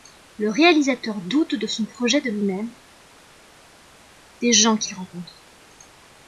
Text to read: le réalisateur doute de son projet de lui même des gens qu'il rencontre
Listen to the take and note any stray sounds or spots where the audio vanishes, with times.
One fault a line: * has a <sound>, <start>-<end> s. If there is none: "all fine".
all fine